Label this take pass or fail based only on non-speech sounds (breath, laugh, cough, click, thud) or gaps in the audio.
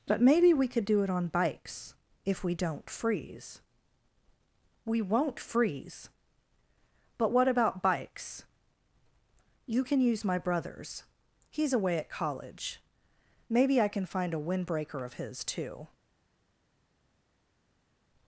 pass